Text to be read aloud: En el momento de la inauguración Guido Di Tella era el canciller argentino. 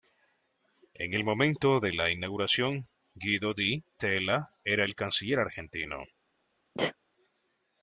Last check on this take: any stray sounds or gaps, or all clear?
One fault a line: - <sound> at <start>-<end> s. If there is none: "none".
- sneeze at 6.7-6.9 s